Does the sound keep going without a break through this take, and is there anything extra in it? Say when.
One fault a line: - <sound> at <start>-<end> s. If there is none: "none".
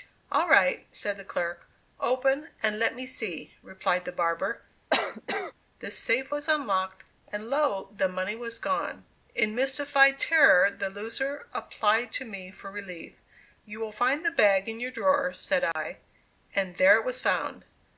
- cough at 4.9-5.5 s
- dropout at 15.7-15.8 s